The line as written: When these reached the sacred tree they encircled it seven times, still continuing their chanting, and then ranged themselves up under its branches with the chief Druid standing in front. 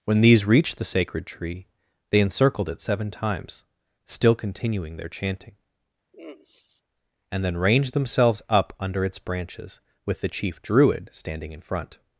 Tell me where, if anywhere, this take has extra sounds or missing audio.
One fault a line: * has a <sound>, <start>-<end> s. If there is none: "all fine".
* has a sigh, 6.1-6.8 s